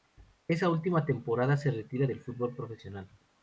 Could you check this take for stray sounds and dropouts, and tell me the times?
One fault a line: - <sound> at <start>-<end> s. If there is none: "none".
none